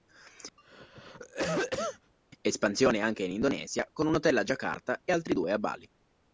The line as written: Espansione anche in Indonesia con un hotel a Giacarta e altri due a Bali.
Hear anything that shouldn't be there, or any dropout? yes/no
yes